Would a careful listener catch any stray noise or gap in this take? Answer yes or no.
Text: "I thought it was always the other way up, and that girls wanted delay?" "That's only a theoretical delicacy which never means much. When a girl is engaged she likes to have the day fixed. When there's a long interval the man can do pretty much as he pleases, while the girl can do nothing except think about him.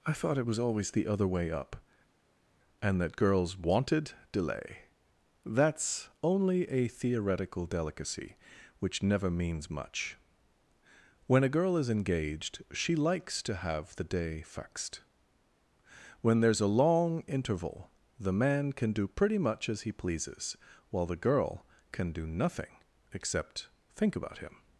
no